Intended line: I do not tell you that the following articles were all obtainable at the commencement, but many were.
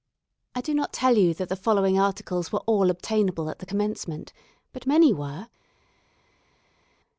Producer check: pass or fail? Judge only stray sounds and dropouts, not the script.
pass